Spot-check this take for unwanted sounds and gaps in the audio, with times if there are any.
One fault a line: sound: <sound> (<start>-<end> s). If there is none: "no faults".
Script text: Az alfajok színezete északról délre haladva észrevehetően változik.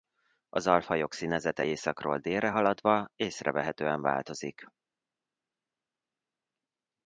no faults